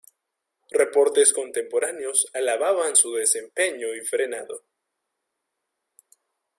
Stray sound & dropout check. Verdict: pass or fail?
pass